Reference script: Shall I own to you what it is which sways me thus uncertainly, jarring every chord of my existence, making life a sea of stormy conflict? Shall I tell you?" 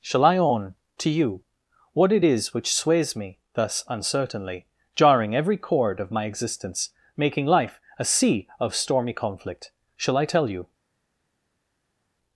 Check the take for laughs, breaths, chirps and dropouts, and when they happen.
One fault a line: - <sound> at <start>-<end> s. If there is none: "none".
none